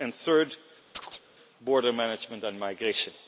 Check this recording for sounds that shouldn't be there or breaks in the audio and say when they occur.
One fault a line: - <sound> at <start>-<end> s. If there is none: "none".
- chirp at 0.9-1.2 s